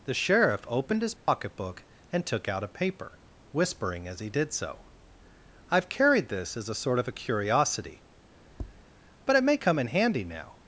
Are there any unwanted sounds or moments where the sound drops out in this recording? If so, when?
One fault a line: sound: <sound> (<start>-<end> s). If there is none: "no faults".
sound: dropout (1.2-1.3 s)
sound: tap (8.5-8.9 s)